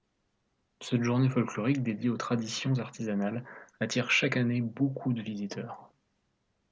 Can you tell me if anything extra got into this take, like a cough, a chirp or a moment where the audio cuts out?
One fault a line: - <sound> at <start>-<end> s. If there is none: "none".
none